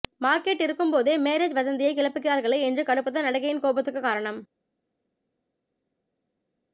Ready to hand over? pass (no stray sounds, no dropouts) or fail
pass